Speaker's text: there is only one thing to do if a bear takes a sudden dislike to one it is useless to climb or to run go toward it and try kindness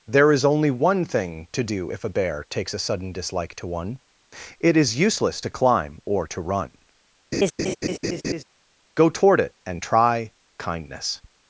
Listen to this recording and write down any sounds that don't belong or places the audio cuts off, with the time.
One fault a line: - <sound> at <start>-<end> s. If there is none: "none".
- laugh at 7.3-8.4 s